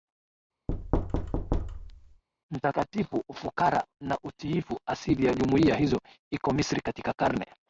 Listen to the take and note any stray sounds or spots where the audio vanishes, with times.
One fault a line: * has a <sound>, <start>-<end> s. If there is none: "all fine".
* has a thud, 0.7-2.2 s